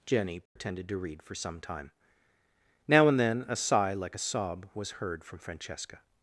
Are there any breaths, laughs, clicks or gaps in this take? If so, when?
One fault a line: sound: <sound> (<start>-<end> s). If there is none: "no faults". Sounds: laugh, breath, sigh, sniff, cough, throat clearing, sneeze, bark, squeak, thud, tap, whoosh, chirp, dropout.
sound: dropout (0.5-0.6 s)